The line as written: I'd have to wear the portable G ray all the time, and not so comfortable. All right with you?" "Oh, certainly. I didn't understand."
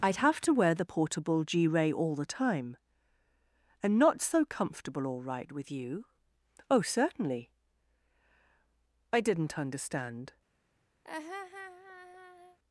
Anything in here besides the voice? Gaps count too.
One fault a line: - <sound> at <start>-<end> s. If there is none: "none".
- laugh at 11.0-12.6 s